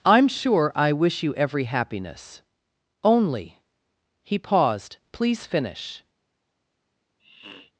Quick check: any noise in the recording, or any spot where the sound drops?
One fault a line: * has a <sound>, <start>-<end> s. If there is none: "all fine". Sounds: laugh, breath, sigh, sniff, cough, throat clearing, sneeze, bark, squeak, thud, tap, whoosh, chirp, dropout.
* has a sniff, 7.2-7.7 s